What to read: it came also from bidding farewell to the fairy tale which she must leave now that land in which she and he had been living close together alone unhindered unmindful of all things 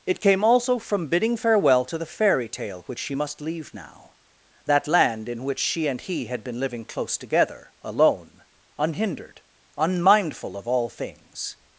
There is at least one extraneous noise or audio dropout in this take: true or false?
false